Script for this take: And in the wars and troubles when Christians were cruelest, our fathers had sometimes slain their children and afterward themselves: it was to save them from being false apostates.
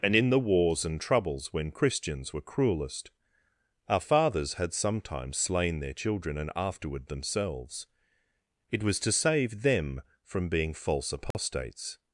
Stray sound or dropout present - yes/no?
yes